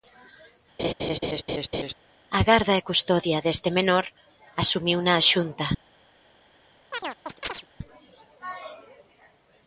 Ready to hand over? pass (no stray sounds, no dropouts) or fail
fail